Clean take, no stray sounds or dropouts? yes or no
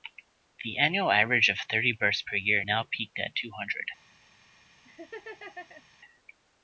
no